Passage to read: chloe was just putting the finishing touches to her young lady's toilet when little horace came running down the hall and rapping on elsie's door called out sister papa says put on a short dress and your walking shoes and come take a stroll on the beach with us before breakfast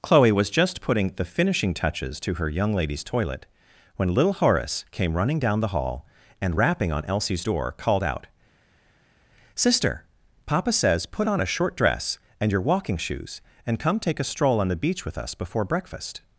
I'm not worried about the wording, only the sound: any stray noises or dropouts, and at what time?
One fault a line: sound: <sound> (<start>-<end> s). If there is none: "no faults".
no faults